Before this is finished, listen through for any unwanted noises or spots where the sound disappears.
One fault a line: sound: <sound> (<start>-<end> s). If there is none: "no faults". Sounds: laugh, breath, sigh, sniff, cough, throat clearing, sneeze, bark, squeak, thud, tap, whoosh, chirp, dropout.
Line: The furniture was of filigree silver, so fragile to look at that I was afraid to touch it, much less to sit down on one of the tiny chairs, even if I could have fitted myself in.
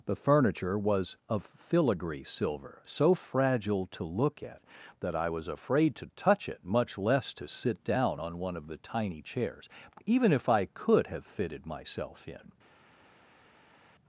no faults